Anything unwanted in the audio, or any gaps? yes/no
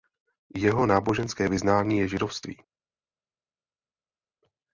no